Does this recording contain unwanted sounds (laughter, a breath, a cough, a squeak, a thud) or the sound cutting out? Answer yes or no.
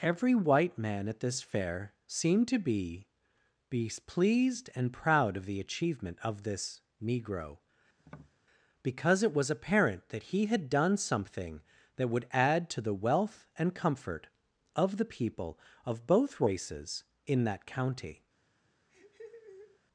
yes